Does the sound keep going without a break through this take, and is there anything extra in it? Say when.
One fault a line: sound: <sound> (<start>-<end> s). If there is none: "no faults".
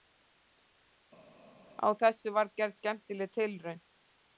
no faults